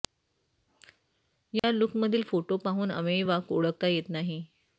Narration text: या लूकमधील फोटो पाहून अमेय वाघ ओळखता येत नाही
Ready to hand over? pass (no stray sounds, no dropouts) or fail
fail